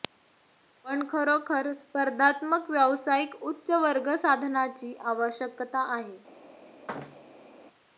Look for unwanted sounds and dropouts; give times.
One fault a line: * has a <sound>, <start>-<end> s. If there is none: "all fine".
* has a thud, 6.9-7.5 s